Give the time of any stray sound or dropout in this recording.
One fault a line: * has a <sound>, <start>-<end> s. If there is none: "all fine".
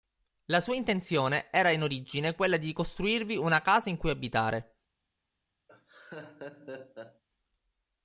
* has a laugh, 5.7-7.2 s